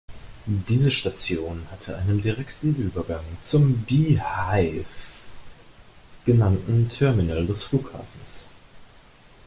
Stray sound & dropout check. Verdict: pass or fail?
pass